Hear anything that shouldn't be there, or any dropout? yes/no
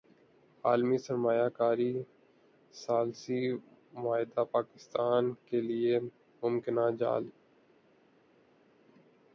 no